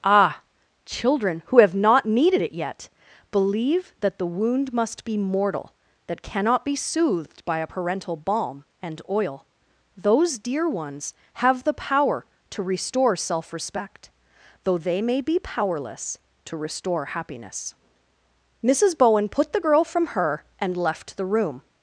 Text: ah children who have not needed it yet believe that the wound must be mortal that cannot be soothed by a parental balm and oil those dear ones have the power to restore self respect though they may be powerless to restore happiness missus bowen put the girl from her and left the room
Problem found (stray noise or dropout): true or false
false